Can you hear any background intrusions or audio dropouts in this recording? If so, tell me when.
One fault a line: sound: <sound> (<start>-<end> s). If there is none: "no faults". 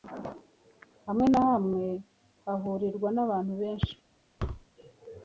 sound: thud (4.4-4.7 s)